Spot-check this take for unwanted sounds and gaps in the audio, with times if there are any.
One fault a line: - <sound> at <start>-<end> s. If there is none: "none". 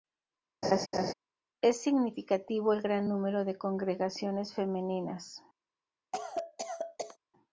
- laugh at 0.6-1.1 s
- cough at 6.1-7.2 s